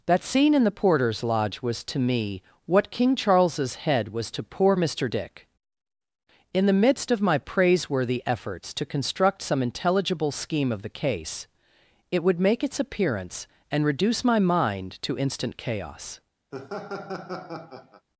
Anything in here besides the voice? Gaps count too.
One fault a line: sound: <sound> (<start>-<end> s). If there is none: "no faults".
sound: laugh (16.5-18.1 s)